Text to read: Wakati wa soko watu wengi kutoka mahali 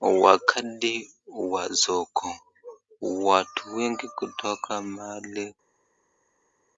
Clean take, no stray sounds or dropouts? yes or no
yes